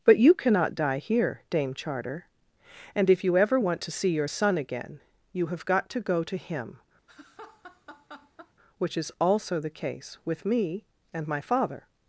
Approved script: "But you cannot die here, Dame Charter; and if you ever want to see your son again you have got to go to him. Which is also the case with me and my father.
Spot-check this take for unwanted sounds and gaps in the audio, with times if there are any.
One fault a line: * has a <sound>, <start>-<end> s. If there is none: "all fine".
* has a laugh, 7.1-8.5 s